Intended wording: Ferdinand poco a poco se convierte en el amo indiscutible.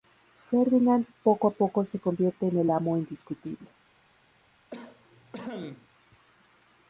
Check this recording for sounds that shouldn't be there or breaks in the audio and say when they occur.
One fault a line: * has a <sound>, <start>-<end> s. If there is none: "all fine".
* has a cough, 4.7-5.9 s